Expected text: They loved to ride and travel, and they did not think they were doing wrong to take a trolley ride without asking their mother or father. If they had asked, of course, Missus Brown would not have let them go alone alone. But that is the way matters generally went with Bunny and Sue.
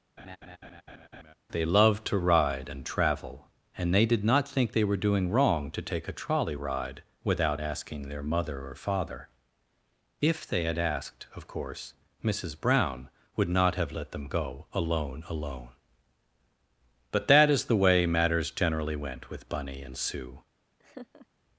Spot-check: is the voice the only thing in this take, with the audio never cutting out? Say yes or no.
no